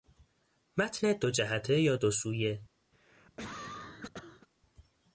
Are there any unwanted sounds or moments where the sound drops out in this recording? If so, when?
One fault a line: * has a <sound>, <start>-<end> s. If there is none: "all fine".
* has a cough, 2.9-4.5 s